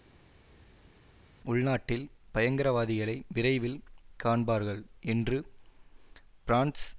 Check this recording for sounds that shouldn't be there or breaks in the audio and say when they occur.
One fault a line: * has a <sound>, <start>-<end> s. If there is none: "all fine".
all fine